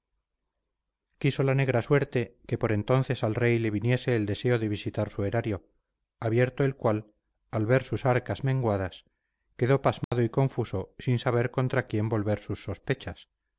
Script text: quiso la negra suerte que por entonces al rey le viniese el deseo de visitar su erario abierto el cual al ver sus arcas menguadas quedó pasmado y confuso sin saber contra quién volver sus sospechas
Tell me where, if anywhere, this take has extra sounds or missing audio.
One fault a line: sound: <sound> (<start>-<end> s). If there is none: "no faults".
sound: dropout (10.0-10.1 s)